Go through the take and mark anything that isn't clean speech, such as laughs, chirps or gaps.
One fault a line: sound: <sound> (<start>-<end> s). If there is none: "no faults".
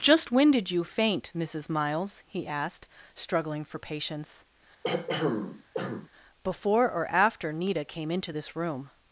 sound: throat clearing (4.8-6.1 s)